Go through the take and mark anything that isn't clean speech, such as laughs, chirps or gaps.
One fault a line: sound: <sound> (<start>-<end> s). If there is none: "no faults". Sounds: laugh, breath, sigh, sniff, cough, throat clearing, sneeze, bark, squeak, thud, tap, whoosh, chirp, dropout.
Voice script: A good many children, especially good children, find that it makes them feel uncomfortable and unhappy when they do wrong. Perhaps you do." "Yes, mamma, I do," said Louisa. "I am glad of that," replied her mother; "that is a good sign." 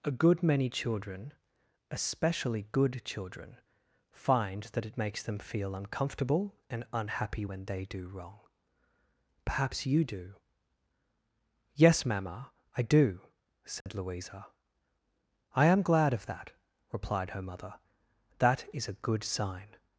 sound: dropout (13.8-13.9 s)